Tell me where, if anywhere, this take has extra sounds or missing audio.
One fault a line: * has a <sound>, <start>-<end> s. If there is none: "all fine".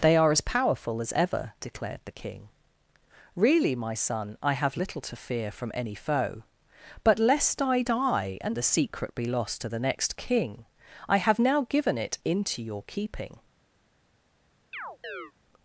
* has a chirp, 14.7-15.3 s